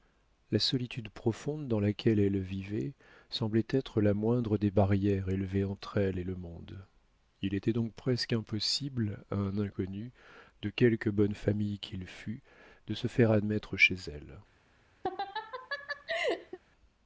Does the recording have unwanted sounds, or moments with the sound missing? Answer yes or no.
yes